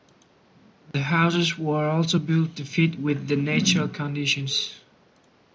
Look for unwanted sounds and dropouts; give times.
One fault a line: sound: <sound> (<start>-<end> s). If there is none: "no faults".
sound: dropout (0.9-0.9 s)